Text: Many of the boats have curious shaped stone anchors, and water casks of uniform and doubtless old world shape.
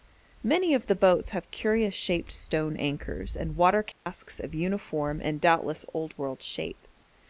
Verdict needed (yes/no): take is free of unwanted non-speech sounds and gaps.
no